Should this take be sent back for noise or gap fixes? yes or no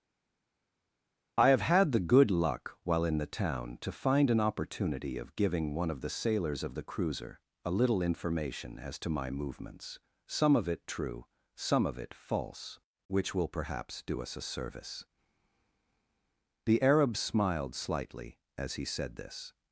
no